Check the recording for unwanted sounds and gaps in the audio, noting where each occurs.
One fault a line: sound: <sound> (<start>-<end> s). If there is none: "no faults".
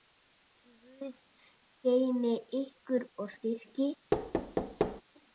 sound: thud (4.1-5.0 s)